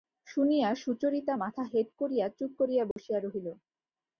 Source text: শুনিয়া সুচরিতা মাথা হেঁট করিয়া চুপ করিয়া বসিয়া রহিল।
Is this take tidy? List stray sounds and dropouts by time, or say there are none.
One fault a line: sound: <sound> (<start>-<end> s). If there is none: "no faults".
sound: dropout (2.9-3.0 s)